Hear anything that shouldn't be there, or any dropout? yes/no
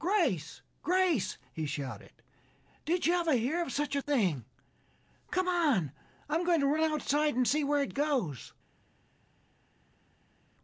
no